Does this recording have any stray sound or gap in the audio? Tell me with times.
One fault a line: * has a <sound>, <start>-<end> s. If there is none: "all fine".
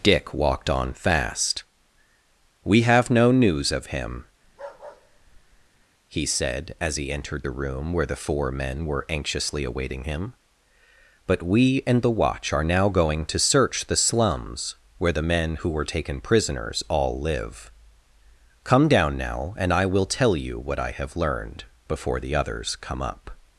* has a bark, 4.4-5.8 s